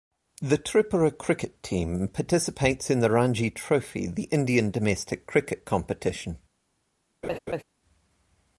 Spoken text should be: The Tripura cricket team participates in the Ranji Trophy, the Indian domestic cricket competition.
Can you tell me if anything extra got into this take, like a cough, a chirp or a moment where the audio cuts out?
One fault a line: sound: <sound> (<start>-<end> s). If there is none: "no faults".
sound: laugh (7.2-7.6 s)